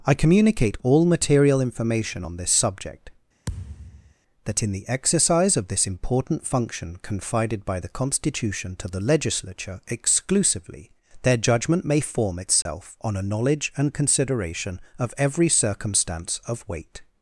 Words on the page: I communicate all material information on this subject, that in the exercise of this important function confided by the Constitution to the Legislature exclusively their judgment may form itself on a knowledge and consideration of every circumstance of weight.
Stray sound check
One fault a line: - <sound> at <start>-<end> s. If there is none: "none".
- thud at 3.5-4.1 s
- dropout at 12.6-12.7 s